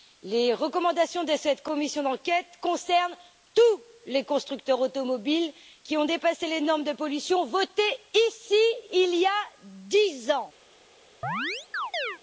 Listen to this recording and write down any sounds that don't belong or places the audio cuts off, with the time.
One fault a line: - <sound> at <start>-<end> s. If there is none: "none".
- chirp at 11.2-12.2 s